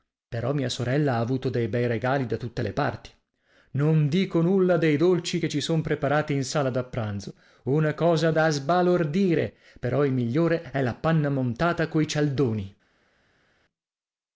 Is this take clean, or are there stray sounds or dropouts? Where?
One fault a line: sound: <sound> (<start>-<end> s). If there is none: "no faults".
no faults